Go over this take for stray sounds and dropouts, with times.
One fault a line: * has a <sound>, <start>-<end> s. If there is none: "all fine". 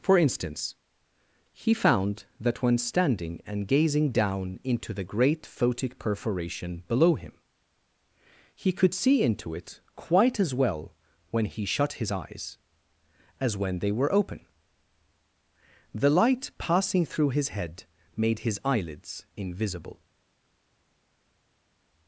all fine